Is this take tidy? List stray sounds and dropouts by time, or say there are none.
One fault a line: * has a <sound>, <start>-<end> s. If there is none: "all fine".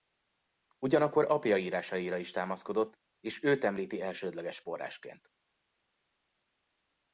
all fine